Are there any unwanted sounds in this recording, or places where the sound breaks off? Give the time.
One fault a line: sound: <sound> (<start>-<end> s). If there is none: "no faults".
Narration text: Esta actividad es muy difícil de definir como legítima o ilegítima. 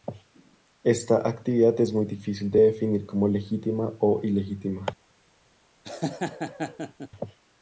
sound: laugh (5.8-7.1 s)